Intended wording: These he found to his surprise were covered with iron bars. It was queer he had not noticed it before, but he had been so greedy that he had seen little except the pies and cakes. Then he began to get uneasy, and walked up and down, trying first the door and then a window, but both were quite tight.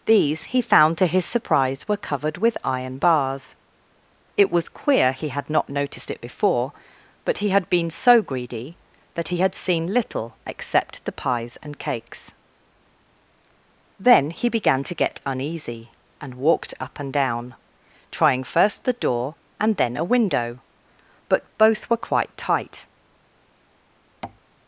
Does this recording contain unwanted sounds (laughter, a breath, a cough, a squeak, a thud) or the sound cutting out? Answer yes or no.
yes